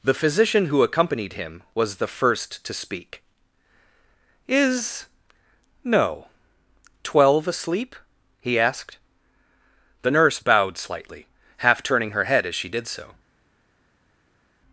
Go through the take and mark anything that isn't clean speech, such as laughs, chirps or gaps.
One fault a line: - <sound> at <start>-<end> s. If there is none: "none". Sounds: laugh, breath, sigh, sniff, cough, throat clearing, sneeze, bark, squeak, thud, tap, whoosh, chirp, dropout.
none